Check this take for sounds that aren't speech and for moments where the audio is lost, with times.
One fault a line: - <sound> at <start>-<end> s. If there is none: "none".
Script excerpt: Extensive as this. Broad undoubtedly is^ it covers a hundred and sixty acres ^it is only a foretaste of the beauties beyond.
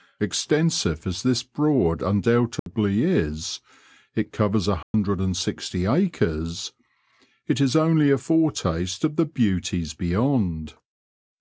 - dropout at 2.6-2.7 s
- dropout at 4.8-4.9 s